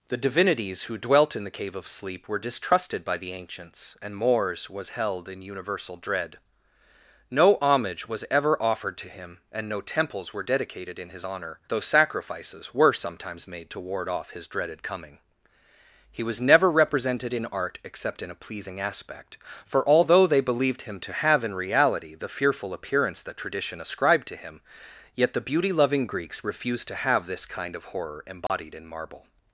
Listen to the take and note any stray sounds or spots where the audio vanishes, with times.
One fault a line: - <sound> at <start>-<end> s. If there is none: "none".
- dropout at 28.5-28.5 s